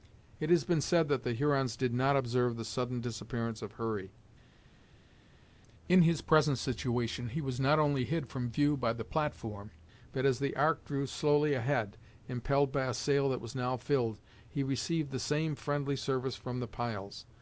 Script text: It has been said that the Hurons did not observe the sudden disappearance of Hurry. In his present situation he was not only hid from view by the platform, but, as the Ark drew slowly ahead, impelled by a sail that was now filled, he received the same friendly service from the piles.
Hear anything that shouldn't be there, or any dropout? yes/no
no